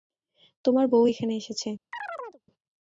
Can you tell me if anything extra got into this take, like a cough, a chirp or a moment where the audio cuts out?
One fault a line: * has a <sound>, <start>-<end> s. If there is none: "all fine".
* has a chirp, 1.9-2.4 s